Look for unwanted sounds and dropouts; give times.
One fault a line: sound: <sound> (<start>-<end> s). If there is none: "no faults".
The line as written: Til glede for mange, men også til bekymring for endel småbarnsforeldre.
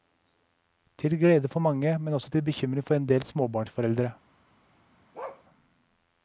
sound: bark (5.1-5.4 s)